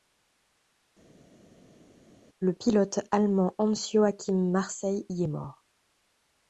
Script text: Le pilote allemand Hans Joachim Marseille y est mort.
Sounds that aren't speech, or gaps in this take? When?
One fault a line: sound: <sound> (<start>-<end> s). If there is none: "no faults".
no faults